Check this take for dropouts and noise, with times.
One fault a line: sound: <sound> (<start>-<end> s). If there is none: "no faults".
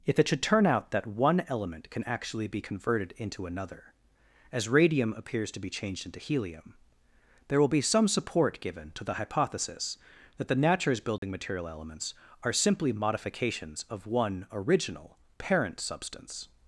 sound: dropout (11.2-11.2 s)